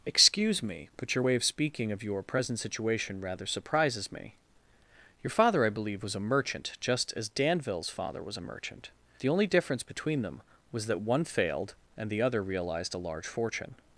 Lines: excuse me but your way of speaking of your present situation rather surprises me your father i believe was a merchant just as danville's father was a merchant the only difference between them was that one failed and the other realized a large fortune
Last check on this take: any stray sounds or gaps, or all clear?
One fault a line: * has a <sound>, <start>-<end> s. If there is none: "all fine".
all fine